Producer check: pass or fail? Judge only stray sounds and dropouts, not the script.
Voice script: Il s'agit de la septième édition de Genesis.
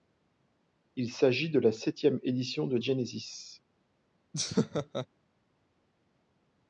fail